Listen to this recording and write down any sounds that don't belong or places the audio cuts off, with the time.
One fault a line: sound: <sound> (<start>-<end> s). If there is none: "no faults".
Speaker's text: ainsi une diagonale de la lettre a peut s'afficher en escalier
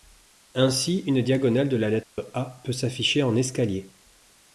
sound: dropout (2.0-2.2 s)